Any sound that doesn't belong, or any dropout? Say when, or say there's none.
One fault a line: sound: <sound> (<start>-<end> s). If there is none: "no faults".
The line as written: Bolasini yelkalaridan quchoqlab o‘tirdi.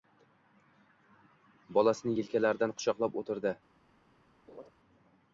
sound: laugh (4.5-4.7 s)